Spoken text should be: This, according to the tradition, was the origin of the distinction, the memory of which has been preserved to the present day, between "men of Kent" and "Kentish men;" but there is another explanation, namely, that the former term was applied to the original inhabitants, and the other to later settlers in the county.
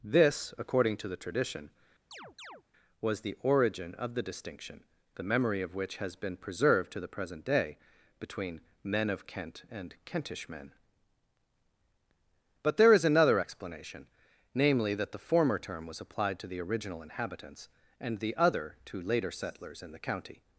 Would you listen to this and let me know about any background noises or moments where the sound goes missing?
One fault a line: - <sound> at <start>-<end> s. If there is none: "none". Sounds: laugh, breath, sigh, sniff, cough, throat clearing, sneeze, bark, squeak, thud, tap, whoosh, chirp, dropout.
- chirp at 2.1-2.6 s